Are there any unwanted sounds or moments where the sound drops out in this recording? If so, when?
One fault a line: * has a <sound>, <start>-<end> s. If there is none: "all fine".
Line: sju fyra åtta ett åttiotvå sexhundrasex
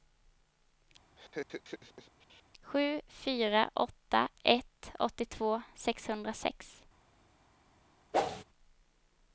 * has a laugh, 1.2-2.4 s
* has a whoosh, 8.1-8.4 s